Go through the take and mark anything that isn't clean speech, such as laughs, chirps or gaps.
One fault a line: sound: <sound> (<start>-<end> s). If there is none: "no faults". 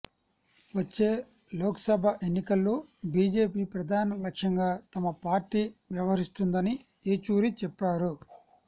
no faults